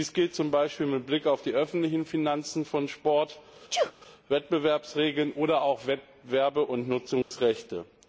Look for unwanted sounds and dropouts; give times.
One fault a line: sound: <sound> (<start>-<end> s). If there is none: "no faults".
sound: sneeze (3.7-3.9 s)
sound: dropout (7.2-7.3 s)